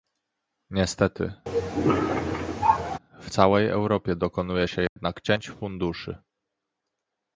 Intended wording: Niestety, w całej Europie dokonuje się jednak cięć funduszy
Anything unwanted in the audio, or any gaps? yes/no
yes